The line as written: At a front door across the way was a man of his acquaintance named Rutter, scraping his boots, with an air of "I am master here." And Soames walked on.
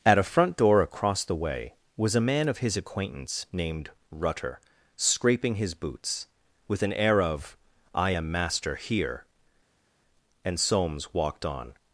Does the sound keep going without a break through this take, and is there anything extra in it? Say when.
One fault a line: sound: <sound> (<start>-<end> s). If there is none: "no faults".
no faults